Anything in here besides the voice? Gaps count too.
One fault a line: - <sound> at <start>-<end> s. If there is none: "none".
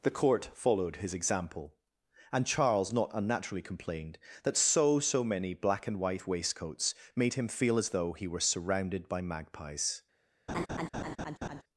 - laugh at 10.5-11.6 s